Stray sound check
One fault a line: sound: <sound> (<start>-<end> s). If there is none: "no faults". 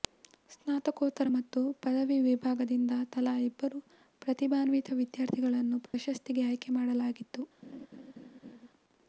sound: dropout (5.9-5.9 s)
sound: laugh (7.6-8.7 s)